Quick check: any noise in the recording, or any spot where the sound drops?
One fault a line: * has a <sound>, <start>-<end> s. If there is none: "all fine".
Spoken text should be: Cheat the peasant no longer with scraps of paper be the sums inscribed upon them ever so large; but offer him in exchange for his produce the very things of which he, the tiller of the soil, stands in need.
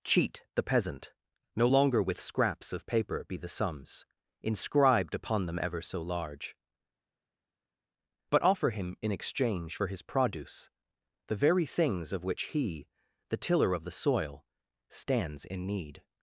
all fine